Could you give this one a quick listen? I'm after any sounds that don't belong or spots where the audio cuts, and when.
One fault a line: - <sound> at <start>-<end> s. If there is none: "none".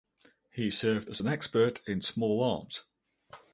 none